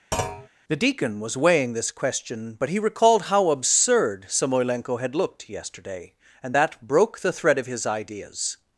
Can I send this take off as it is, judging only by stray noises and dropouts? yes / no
no